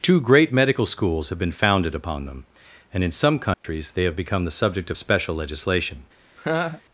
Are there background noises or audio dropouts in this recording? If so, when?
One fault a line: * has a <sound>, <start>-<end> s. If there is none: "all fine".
* has a dropout, 3.5-3.6 s
* has a laugh, 6.4-6.8 s